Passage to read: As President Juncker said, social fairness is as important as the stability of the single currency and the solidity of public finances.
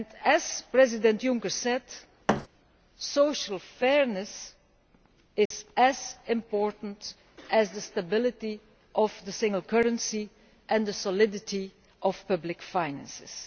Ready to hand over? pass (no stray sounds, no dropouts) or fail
fail